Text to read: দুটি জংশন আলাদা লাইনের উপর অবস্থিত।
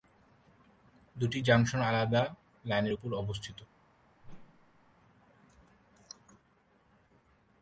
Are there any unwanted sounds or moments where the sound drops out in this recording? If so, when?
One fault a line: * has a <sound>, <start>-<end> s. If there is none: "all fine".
* has a whoosh, 4.2-4.9 s